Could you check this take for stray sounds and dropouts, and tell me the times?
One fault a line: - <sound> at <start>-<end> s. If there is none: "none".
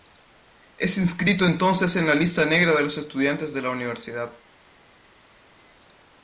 none